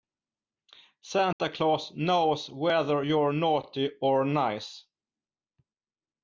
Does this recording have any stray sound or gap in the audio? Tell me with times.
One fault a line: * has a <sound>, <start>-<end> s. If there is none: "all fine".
* has a dropout, 1.3-1.4 s